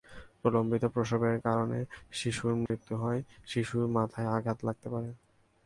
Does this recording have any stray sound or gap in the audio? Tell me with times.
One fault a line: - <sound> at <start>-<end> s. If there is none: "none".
- dropout at 2.7-2.7 s